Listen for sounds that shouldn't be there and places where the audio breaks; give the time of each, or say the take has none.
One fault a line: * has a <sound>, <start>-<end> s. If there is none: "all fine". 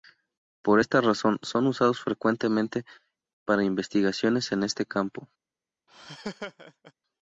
* has a laugh, 5.9-6.9 s